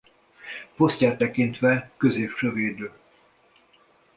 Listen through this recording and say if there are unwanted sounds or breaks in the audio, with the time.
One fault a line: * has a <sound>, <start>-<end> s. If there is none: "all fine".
all fine